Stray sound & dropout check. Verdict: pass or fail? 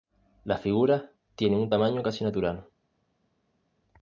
pass